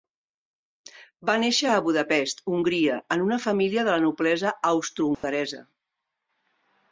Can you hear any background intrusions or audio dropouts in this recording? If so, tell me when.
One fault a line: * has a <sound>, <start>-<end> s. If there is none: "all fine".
* has a dropout, 5.1-5.2 s